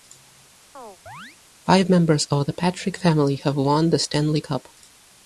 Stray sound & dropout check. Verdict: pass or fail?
fail